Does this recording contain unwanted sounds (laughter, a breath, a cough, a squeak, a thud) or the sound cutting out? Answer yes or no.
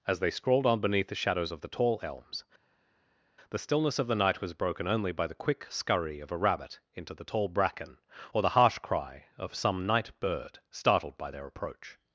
no